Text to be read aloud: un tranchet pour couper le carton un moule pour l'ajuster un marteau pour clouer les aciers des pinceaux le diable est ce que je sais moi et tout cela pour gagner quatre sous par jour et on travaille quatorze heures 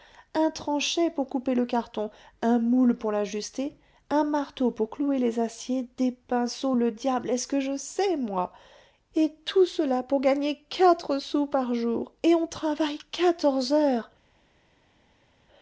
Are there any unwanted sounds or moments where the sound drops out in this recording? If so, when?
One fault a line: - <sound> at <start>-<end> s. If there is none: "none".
none